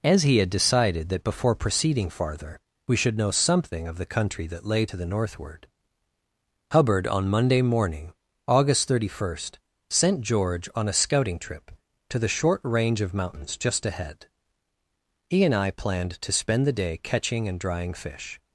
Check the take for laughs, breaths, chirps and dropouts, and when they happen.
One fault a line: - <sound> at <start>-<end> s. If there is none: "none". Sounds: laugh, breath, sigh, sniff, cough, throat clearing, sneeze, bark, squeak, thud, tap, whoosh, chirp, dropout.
none